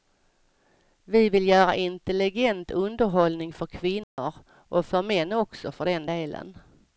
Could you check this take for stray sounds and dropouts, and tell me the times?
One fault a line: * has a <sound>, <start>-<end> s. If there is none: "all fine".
* has a dropout, 4.0-4.2 s